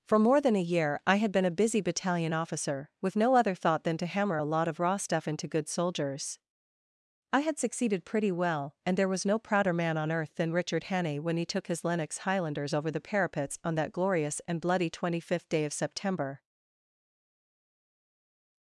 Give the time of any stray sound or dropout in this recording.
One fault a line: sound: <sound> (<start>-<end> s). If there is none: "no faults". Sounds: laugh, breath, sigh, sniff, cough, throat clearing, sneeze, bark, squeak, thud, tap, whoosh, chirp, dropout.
no faults